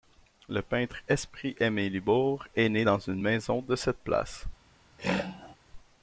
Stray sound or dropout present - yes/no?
yes